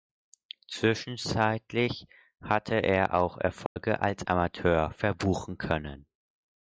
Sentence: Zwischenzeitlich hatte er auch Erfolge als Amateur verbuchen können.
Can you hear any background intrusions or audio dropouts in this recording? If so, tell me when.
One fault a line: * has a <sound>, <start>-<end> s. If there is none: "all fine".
* has a dropout, 3.7-3.8 s